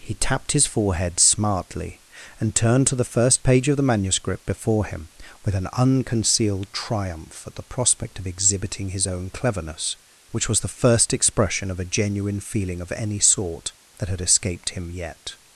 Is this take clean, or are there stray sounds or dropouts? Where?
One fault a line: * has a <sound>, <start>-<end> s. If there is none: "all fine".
all fine